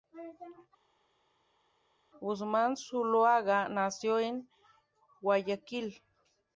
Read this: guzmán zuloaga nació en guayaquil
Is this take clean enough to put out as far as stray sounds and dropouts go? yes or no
yes